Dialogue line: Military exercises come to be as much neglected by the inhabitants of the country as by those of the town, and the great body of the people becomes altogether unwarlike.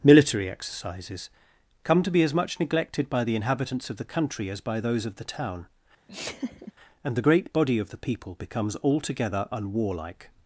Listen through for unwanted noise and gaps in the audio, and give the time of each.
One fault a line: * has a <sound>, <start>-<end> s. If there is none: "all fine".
* has a laugh, 6.1-6.7 s